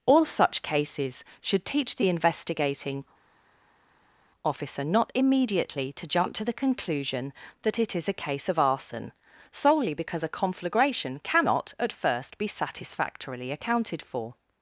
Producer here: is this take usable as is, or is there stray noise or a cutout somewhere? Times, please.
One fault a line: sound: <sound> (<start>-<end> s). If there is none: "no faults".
no faults